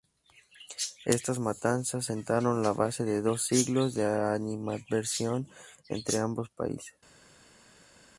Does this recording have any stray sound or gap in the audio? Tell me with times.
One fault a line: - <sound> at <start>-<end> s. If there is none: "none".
none